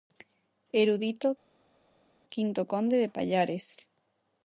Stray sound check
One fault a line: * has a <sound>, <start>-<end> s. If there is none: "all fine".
all fine